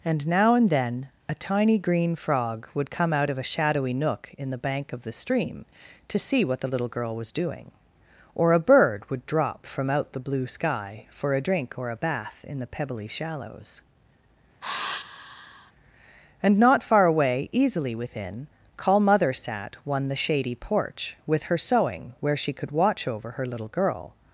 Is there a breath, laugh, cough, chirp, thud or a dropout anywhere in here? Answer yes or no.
yes